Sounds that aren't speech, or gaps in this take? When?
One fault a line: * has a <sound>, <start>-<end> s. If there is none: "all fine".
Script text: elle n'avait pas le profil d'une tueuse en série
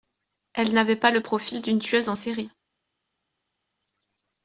all fine